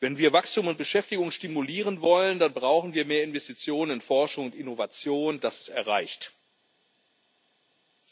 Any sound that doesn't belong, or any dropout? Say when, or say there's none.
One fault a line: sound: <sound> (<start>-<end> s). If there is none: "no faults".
no faults